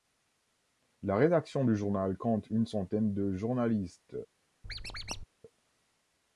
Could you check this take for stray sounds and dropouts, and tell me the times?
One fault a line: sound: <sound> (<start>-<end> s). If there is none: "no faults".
sound: squeak (4.6-5.3 s)